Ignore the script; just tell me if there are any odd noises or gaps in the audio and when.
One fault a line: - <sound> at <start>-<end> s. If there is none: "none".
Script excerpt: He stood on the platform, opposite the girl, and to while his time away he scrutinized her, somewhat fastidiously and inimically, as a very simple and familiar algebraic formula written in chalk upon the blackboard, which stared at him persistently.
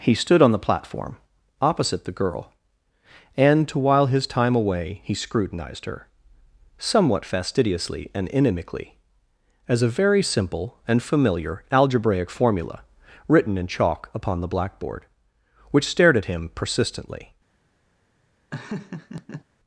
- laugh at 18.5-19.4 s